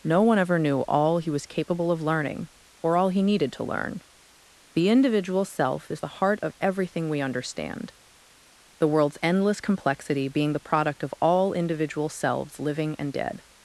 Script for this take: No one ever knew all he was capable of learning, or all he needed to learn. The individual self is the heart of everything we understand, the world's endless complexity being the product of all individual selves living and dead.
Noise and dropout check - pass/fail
pass